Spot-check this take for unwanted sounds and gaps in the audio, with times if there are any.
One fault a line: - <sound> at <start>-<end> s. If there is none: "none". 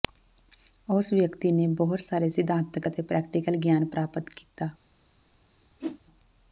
- whoosh at 5.8-6.0 s